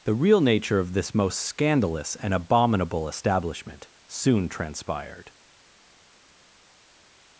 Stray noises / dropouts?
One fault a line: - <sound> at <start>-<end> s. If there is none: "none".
none